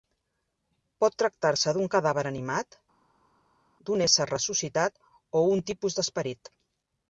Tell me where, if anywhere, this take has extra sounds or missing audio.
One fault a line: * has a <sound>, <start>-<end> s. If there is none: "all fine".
all fine